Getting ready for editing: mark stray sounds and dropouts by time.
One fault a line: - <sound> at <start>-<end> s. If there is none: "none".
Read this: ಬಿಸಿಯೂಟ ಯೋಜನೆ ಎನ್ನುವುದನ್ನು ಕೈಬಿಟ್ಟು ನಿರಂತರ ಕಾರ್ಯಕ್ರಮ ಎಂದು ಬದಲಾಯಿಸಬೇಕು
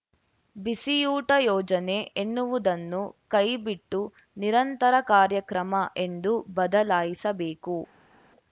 none